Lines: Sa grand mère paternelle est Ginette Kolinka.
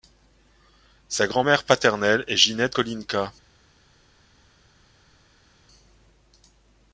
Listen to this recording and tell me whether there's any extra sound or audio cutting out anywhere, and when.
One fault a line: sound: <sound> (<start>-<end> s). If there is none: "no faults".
no faults